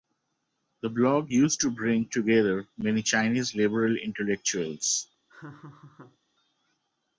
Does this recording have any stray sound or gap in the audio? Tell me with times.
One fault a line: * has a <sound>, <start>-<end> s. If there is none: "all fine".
* has a laugh, 5.3-6.2 s